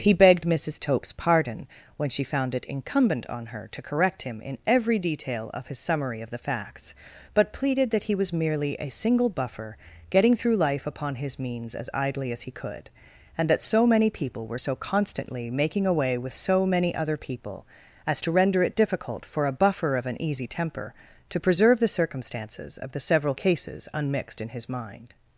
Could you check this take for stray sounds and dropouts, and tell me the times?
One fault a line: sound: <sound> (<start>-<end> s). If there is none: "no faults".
no faults